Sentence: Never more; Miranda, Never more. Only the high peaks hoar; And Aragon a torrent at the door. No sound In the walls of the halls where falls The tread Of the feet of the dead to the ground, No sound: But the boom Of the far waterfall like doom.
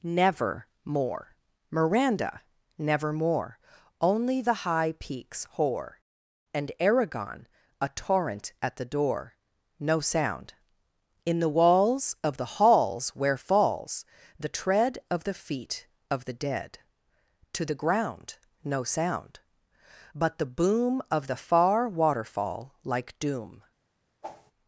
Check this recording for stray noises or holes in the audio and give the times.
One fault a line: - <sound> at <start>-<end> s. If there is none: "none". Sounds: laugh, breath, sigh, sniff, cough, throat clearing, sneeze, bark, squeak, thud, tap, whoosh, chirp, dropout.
- whoosh at 24.2-24.5 s